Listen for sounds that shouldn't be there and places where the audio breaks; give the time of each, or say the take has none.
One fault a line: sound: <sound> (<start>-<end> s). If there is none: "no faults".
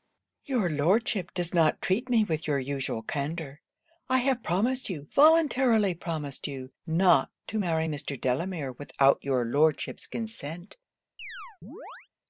sound: chirp (11.2-12.1 s)